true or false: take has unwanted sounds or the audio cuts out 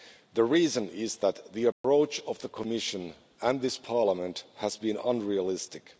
true